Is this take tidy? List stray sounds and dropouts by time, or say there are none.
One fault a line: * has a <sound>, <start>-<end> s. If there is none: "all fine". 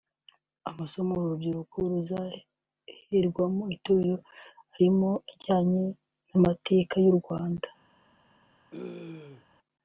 * has a throat clearing, 8.7-9.5 s